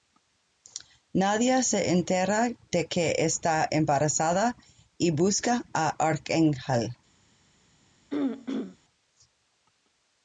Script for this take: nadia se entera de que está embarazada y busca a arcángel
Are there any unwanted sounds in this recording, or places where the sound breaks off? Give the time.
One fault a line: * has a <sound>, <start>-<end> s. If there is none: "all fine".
* has a throat clearing, 8.1-8.8 s